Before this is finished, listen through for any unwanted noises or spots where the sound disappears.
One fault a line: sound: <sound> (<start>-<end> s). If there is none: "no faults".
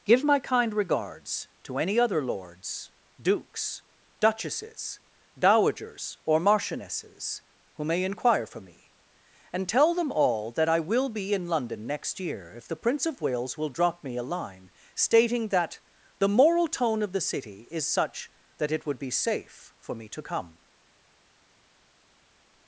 no faults